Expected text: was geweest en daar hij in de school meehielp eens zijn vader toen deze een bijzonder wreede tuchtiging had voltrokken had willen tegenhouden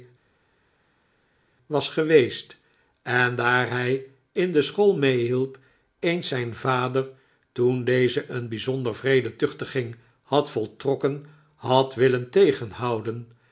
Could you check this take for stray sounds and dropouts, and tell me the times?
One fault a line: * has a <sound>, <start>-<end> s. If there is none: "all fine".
all fine